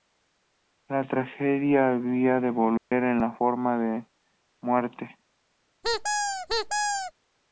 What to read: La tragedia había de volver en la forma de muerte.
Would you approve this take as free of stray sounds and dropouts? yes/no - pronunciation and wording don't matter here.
no